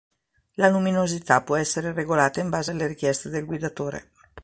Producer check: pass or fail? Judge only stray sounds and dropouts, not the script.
pass